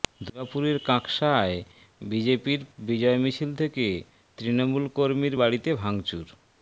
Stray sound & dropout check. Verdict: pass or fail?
pass